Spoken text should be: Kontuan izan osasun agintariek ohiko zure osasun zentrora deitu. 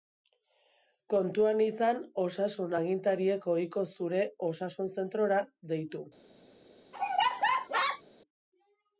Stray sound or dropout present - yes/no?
yes